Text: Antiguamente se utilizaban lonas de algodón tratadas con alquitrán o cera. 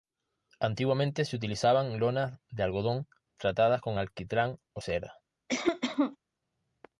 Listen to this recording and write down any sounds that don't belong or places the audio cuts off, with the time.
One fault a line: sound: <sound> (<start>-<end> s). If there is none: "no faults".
sound: cough (5.5-6.2 s)